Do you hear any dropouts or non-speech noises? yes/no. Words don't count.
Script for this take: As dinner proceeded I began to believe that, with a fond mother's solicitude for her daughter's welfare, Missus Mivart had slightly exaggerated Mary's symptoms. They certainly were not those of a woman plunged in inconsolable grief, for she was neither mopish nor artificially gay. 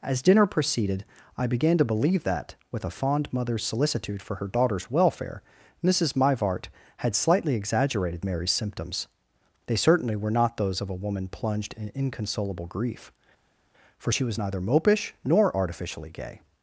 no